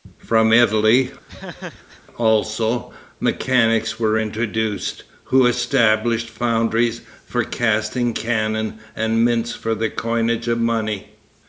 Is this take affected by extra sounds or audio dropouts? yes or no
yes